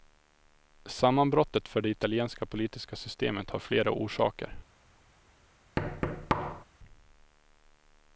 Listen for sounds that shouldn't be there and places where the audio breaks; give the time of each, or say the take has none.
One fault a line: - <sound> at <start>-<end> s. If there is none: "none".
- thud at 5.8-6.6 s